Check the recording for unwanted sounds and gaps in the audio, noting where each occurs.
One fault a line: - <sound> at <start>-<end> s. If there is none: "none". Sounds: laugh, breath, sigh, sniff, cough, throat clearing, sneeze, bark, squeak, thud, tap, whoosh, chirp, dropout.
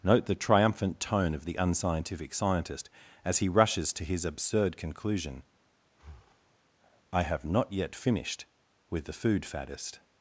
- breath at 5.9-6.6 s